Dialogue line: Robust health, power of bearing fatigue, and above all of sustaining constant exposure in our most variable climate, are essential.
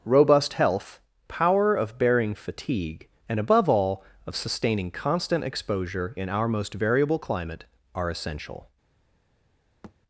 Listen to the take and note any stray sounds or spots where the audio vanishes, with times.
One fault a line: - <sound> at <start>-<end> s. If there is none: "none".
- thud at 9.8-10.0 s